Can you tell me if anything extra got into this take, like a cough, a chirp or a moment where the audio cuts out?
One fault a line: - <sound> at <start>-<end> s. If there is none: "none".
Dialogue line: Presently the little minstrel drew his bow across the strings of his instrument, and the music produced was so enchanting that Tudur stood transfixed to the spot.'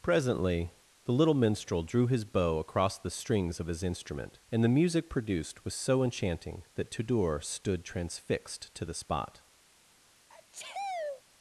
- sneeze at 10.3-11.2 s